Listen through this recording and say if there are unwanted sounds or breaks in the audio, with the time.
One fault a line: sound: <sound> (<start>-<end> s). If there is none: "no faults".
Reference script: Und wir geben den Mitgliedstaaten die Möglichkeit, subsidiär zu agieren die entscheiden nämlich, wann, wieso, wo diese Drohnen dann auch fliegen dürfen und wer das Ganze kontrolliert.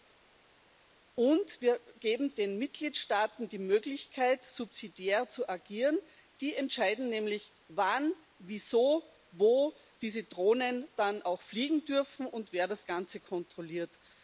no faults